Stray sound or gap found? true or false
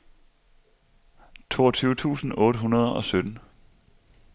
false